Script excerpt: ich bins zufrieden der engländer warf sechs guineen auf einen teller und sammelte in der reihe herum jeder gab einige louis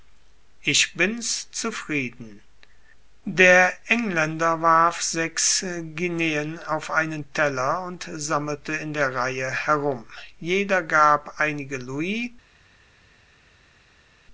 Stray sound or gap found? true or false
false